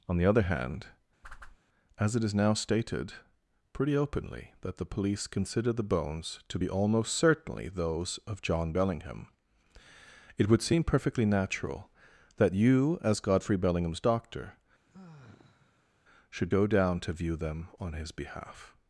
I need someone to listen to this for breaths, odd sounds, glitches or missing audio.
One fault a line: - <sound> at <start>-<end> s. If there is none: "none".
- whoosh at 1.2-1.6 s
- sigh at 14.9-16.0 s